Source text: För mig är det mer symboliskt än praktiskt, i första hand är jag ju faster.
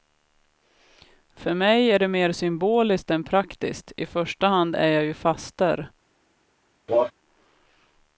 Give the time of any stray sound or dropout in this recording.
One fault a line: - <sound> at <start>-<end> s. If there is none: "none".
- cough at 6.9-7.1 s